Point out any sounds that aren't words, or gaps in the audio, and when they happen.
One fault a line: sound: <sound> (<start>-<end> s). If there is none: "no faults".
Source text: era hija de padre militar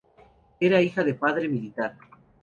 no faults